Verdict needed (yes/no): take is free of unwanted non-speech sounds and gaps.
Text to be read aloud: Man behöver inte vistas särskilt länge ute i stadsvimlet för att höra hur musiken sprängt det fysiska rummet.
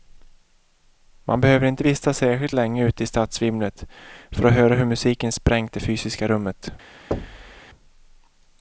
no